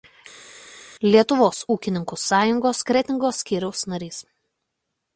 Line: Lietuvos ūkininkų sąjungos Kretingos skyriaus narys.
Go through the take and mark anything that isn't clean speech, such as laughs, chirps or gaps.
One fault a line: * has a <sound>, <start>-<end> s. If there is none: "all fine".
all fine